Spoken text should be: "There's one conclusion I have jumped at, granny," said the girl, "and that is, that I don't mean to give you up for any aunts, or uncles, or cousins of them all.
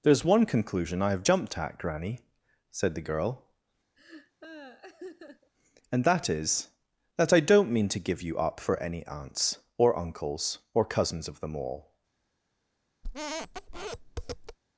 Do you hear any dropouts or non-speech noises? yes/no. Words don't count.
yes